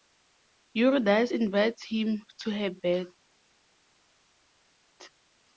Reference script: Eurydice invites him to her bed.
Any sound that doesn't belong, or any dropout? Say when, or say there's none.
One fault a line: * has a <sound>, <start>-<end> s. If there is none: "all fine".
all fine